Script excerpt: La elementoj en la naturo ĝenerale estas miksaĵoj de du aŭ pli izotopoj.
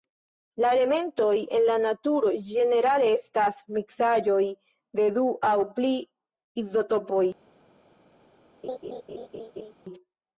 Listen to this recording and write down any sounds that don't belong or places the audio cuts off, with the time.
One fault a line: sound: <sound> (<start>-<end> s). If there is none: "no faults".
sound: laugh (8.6-9.7 s)